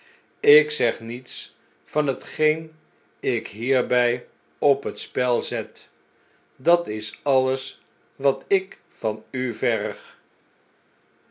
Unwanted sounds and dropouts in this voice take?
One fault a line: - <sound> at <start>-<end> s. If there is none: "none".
none